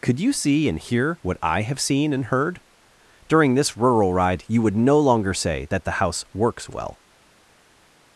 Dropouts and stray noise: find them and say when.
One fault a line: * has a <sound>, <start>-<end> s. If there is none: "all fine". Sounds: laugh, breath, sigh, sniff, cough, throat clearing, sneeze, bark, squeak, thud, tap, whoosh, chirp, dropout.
all fine